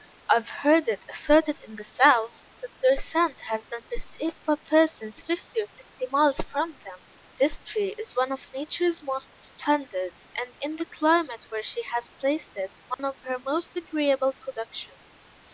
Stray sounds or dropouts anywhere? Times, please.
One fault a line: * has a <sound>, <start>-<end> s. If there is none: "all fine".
* has a dropout, 12.9-13.0 s